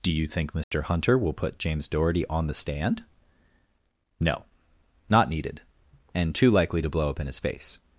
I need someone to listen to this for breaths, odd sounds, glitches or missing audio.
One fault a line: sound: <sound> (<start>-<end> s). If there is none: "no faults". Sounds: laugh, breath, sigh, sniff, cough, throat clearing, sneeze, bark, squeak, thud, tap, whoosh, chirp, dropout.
sound: dropout (0.6-0.7 s)